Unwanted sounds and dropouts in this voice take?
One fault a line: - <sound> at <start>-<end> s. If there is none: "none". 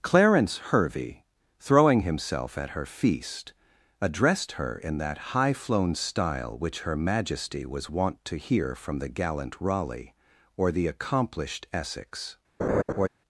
- laugh at 12.6-13.1 s